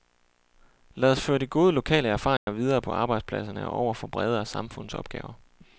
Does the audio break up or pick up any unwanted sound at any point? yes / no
yes